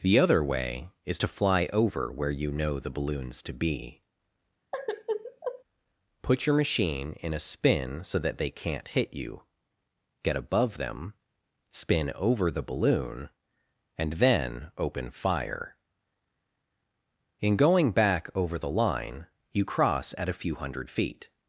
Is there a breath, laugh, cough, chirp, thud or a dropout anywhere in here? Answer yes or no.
yes